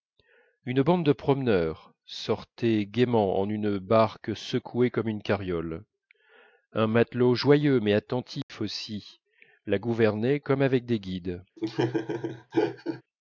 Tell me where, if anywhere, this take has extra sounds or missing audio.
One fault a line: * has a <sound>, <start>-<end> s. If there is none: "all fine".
* has a dropout, 8.4-8.5 s
* has a laugh, 11.6-13.0 s